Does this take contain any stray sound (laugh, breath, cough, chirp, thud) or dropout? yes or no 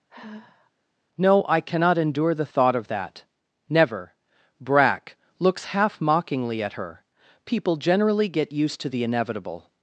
yes